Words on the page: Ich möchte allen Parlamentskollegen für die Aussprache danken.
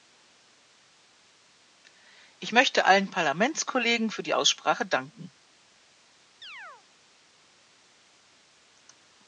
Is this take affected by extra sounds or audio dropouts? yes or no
yes